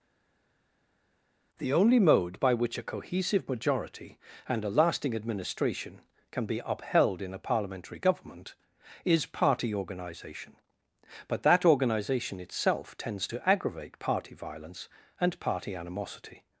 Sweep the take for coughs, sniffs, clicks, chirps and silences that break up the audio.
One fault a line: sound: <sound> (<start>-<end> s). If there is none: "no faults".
no faults